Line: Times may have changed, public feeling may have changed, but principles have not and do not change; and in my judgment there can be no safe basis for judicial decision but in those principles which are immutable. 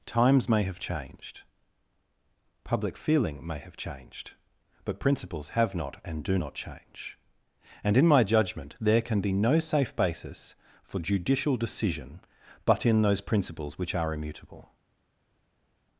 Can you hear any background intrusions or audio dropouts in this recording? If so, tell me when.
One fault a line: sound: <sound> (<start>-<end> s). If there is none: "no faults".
no faults